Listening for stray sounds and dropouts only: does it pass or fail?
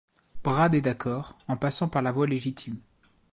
pass